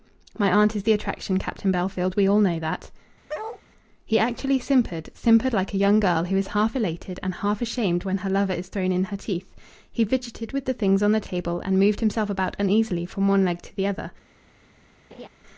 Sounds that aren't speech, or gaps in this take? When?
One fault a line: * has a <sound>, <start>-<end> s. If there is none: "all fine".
* has a bark, 3.3-3.6 s
* has a laugh, 15.1-15.3 s